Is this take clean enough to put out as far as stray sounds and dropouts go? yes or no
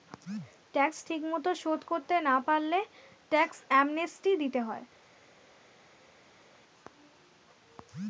yes